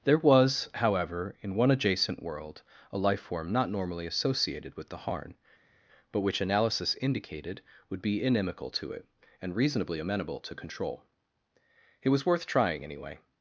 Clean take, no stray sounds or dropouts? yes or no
yes